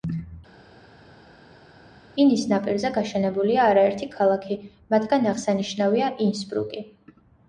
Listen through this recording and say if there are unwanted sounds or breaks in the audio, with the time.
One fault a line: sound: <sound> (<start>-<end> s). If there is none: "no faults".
no faults